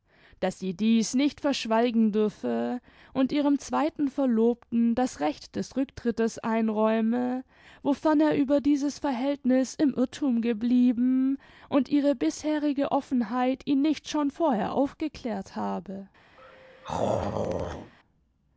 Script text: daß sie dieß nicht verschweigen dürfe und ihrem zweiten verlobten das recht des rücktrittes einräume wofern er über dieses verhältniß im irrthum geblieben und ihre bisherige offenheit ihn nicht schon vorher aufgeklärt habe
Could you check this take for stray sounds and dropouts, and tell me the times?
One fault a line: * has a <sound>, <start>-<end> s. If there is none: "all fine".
* has a throat clearing, 16.4-17.9 s